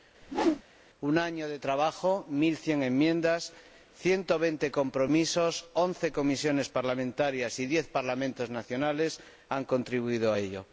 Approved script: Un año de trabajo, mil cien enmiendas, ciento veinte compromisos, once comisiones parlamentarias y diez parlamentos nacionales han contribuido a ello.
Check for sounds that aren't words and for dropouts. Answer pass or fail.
fail